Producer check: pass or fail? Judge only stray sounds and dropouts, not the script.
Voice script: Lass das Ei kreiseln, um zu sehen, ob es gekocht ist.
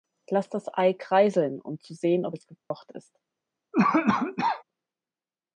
fail